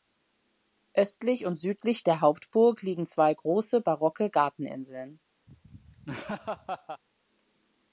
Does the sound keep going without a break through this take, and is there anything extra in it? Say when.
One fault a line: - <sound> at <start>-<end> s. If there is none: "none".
- laugh at 5.5-7.0 s